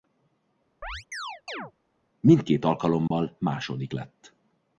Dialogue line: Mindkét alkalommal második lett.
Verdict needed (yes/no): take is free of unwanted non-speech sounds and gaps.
no